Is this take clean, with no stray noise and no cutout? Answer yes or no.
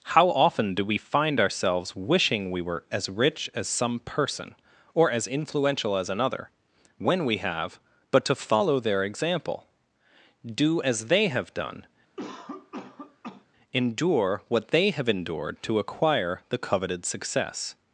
no